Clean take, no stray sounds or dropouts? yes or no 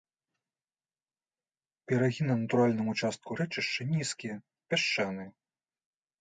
yes